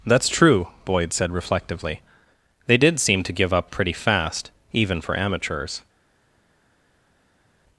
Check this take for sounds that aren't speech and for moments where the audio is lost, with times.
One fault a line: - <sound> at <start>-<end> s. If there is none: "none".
none